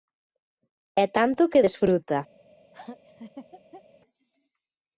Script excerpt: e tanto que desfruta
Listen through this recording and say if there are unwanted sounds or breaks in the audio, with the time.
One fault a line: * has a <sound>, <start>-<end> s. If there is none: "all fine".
* has a laugh, 2.7-3.8 s